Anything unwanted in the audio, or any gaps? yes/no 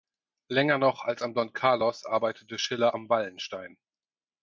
no